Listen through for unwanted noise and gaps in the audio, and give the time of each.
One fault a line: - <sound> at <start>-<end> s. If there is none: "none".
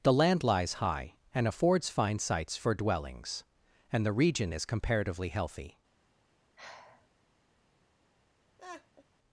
- sigh at 6.6-7.1 s
- laugh at 8.6-9.0 s